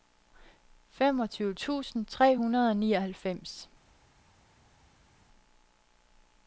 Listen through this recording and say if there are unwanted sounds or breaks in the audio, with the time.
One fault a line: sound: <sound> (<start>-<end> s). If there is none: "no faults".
no faults